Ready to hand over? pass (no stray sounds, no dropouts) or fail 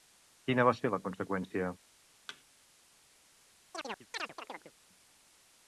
fail